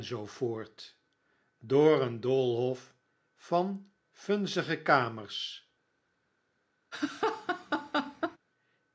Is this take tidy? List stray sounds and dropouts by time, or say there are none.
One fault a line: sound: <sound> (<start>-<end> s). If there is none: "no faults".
sound: laugh (6.9-8.4 s)